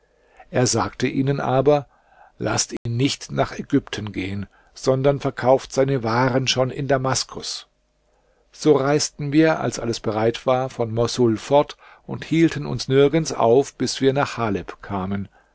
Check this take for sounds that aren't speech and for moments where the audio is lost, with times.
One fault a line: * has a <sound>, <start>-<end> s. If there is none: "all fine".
* has a dropout, 2.8-2.9 s